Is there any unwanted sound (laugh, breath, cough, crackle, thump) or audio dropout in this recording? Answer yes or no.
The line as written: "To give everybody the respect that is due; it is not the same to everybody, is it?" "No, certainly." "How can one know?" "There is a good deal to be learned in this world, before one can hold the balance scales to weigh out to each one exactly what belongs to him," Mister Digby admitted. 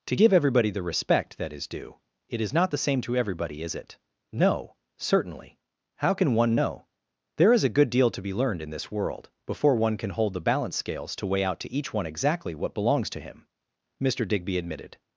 no